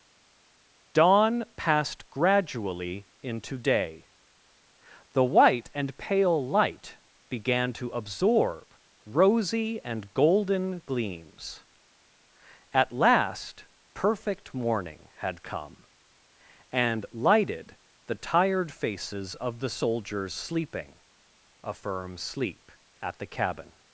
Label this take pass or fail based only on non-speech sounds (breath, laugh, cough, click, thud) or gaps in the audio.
pass